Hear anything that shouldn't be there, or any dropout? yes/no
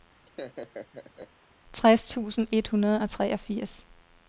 yes